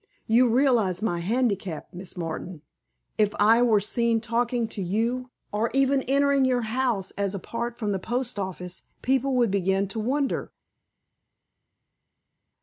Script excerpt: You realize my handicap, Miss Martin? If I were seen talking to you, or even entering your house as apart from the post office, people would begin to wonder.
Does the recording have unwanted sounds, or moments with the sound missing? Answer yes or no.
no